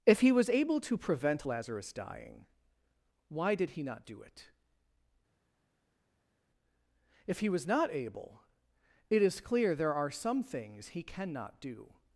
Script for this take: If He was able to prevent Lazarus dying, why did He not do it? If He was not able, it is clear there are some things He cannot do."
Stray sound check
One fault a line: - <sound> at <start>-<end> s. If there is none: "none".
none